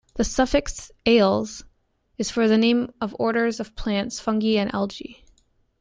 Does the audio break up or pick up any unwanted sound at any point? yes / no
no